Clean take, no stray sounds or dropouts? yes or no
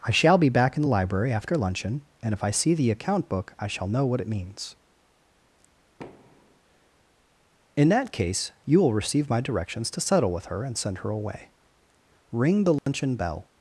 no